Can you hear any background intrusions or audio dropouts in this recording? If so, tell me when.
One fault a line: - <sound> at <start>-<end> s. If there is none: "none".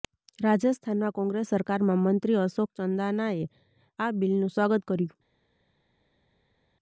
none